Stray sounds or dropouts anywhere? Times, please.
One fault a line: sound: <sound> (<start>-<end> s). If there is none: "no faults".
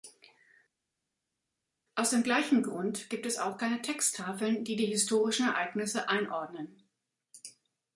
no faults